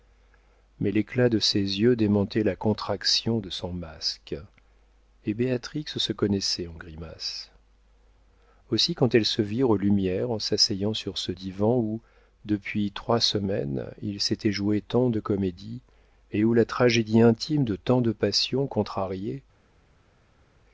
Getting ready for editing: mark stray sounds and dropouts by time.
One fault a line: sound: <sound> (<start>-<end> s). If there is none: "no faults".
no faults